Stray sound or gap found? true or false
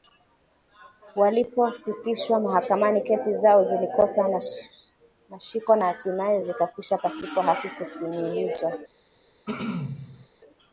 true